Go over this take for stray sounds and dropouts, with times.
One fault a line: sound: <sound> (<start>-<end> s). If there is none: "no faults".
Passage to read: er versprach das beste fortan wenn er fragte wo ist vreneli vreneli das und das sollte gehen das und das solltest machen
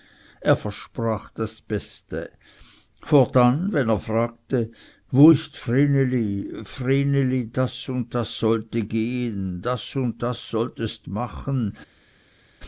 no faults